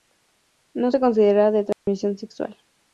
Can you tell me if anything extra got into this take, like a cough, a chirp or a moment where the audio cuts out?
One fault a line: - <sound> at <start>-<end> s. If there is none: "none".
- dropout at 1.7-1.9 s